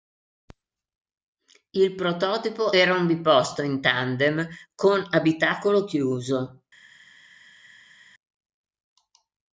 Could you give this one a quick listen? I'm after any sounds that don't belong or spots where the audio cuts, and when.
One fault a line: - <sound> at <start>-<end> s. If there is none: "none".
none